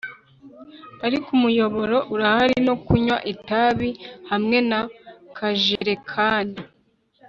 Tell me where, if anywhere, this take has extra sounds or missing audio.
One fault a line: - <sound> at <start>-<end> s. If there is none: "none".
- dropout at 5.8-5.8 s